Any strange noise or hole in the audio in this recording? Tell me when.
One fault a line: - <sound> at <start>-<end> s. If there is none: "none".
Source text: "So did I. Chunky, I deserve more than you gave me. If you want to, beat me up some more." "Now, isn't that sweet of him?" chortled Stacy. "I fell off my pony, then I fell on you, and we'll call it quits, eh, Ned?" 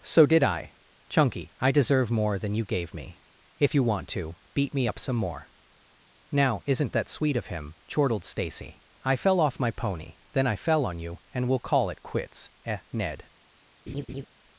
- laugh at 13.9-14.3 s